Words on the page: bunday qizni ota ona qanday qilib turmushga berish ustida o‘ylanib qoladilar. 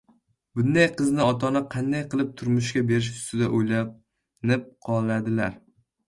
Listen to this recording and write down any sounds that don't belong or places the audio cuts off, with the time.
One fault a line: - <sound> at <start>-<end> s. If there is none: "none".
none